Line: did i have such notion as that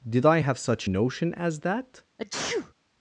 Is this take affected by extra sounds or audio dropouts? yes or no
yes